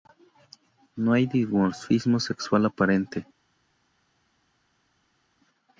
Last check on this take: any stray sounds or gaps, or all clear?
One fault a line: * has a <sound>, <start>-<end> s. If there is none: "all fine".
all fine